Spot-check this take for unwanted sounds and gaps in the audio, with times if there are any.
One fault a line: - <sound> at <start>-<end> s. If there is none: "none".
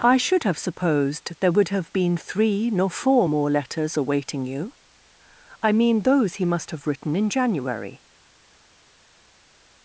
none